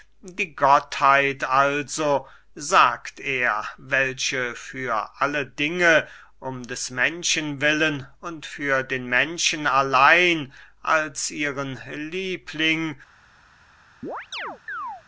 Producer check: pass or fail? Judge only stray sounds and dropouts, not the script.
fail